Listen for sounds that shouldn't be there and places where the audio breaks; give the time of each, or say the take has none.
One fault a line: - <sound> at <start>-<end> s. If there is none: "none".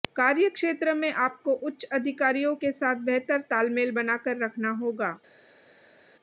none